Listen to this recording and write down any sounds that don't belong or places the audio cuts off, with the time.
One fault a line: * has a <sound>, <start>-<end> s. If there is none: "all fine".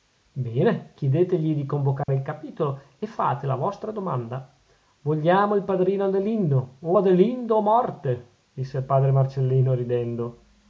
* has a dropout, 2.0-2.1 s